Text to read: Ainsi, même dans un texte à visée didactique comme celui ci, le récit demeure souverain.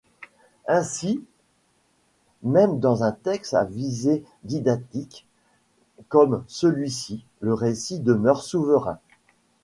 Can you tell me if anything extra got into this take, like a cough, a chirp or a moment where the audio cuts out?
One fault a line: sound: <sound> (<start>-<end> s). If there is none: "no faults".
no faults